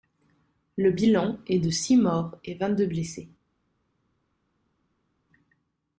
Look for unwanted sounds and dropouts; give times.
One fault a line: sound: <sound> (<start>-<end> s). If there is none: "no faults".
no faults